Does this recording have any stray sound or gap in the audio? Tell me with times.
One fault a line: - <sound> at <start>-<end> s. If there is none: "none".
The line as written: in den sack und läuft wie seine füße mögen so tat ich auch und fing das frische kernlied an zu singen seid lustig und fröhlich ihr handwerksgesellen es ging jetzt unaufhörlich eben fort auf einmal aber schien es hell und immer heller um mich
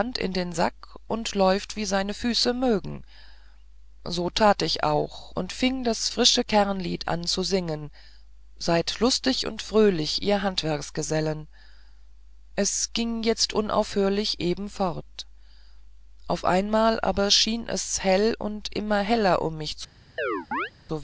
- chirp at 20.2-20.7 s